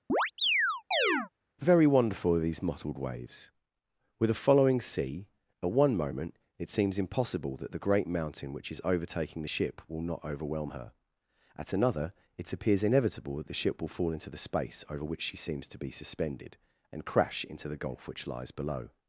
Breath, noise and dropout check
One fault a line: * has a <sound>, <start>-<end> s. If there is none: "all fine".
* has a chirp, 0.1-1.3 s